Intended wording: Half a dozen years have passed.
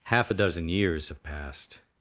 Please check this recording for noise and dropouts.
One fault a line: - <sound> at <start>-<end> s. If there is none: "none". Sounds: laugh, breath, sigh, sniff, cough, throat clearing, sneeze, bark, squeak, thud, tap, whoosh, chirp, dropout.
none